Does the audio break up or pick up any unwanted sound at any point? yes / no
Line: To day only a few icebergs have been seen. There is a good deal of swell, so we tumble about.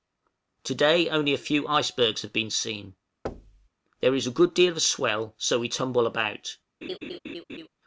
yes